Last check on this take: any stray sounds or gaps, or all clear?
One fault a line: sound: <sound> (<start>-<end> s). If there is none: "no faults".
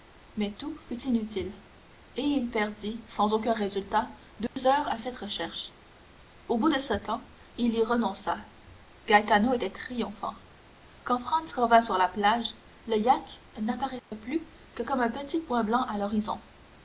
sound: dropout (4.5-4.6 s)
sound: dropout (14.0-14.1 s)